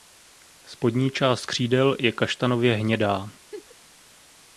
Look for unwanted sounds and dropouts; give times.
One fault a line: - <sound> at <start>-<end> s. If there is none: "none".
- laugh at 3.5-3.8 s